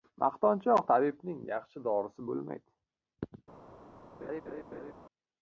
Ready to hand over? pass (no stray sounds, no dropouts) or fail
fail